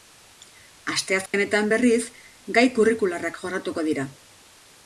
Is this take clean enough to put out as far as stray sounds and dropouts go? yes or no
no